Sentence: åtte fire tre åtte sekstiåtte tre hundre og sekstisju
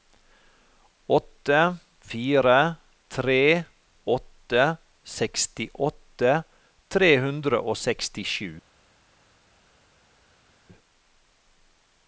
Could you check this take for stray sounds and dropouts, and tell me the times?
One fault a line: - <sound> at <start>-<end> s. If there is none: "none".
none